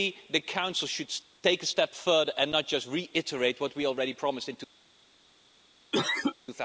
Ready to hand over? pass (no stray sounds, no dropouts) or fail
fail